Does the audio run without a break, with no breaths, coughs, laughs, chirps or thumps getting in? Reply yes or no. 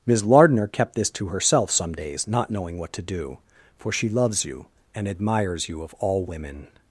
yes